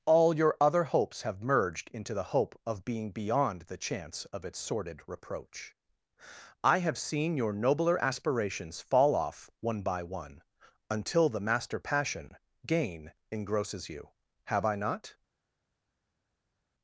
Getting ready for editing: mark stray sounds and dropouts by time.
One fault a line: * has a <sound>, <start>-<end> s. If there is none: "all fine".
all fine